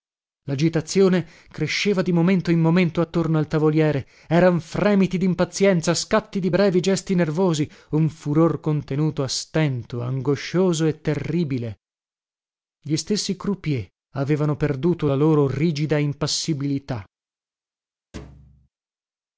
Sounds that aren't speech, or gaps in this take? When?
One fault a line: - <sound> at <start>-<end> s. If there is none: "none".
- thud at 18.1-18.7 s